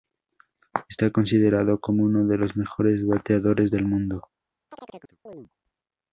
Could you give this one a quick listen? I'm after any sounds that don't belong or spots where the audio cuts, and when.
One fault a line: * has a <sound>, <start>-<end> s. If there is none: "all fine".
* has a chirp, 4.7-5.5 s